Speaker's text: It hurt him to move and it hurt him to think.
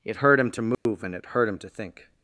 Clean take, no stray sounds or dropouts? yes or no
no